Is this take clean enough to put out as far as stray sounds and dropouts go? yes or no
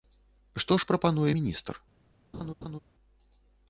no